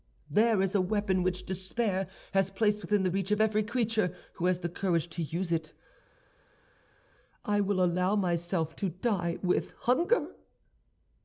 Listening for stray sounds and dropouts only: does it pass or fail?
pass